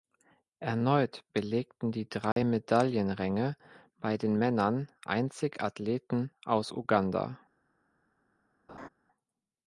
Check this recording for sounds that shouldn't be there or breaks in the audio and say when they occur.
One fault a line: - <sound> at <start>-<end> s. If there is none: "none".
- dropout at 2.3-2.4 s
- laugh at 8.7-8.9 s